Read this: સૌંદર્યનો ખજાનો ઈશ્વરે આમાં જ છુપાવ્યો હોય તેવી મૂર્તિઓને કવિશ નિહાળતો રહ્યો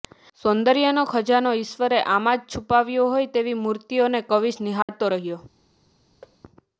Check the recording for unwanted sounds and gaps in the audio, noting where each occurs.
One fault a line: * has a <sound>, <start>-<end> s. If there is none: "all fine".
* has a dropout, 4.8-4.9 s
* has a thud, 6.2-6.4 s